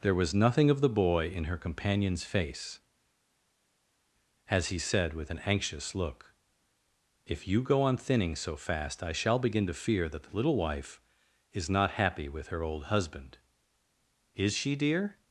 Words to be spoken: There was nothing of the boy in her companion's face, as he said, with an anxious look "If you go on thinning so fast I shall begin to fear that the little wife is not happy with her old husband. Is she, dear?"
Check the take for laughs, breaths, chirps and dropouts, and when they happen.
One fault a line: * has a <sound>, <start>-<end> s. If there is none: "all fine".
all fine